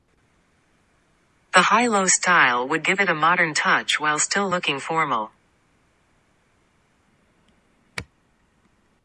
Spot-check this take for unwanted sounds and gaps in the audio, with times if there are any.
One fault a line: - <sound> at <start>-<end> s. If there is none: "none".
none